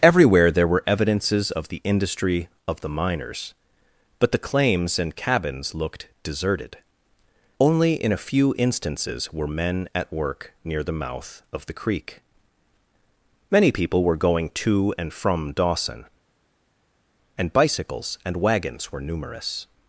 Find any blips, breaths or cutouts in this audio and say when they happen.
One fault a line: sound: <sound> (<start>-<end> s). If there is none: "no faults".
no faults